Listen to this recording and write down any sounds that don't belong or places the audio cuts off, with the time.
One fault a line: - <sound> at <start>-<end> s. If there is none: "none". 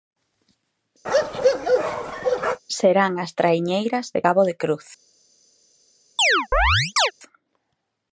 - bark at 1.0-2.6 s
- chirp at 6.2-7.1 s